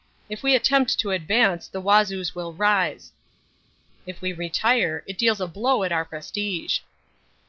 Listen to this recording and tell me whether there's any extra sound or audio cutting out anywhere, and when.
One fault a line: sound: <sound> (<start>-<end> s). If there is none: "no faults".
no faults